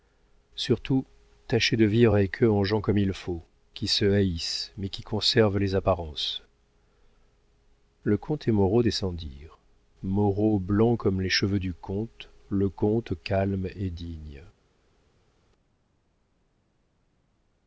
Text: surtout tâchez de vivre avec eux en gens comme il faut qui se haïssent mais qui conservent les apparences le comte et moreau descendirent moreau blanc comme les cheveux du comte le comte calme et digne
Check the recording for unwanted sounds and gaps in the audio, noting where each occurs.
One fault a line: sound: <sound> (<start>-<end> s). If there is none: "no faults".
no faults